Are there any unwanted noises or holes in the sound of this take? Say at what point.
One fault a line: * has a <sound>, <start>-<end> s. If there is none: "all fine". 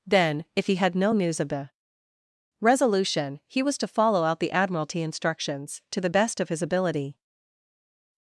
all fine